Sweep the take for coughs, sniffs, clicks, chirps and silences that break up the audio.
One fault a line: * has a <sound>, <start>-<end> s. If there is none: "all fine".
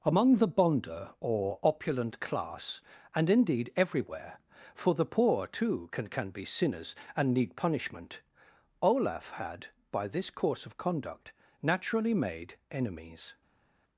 all fine